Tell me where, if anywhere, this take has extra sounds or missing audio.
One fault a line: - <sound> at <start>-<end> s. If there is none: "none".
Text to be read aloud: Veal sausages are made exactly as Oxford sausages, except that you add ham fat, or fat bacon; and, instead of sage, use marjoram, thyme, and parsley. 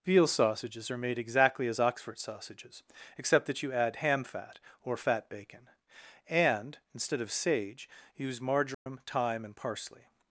- dropout at 8.7-8.9 s